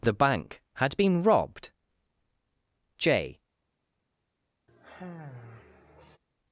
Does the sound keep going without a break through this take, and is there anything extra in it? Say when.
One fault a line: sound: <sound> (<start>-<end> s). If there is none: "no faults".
sound: sigh (4.7-6.2 s)